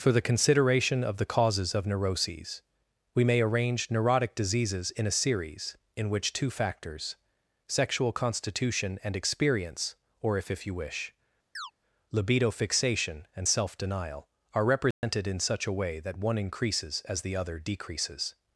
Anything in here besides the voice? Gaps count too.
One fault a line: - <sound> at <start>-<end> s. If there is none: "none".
- chirp at 11.5-11.7 s
- dropout at 14.9-15.0 s